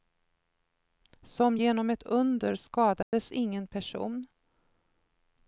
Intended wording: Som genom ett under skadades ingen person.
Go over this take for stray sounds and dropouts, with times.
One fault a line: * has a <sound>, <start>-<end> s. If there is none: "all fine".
* has a dropout, 3.0-3.1 s